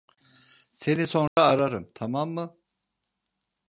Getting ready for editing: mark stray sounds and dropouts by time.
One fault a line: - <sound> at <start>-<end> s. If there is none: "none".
- dropout at 1.3-1.4 s